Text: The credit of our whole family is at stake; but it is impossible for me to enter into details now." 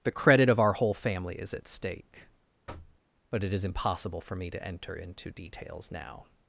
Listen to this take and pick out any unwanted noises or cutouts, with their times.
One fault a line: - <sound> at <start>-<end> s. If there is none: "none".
- thud at 2.7-3.0 s